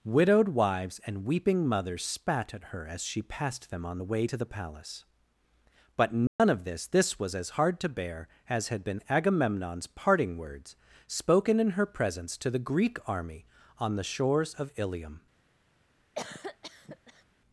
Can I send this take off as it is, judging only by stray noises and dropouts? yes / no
no